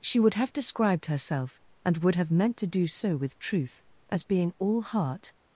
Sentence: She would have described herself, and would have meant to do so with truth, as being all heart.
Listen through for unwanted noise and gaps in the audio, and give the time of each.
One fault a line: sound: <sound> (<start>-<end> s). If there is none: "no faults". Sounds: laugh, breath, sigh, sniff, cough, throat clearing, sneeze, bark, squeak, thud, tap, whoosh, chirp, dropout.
no faults